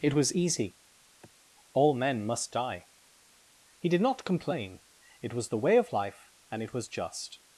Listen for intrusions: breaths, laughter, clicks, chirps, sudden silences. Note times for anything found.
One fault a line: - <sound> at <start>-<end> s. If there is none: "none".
- sigh at 1.2-1.3 s